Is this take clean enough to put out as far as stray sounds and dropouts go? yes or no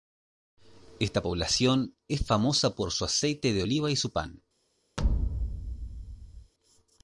no